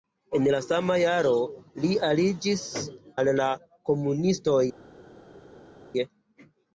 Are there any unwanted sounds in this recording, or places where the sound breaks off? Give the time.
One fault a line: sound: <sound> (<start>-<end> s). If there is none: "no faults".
no faults